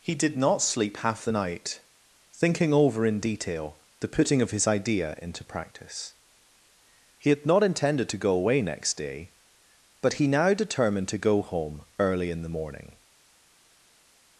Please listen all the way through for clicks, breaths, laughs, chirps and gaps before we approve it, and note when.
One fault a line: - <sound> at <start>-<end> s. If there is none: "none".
none